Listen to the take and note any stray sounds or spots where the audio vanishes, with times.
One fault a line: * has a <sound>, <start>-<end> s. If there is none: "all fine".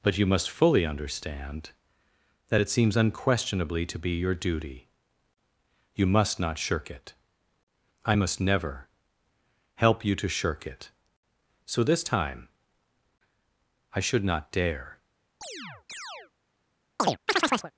* has a chirp, 15.4-16.3 s
* has a chirp, 17.0-17.7 s